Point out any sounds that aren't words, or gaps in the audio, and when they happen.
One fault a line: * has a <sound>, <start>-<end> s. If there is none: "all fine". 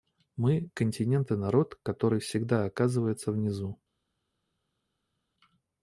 all fine